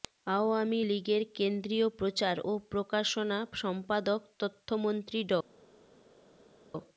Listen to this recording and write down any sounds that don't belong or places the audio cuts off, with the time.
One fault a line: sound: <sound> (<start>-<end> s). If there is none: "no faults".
no faults